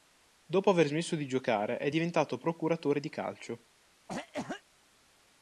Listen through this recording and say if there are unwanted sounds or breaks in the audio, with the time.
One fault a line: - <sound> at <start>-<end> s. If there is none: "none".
- cough at 4.1-4.6 s